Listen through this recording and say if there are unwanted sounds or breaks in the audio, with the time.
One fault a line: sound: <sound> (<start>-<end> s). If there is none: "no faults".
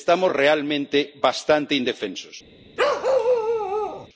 sound: bark (2.8-4.1 s)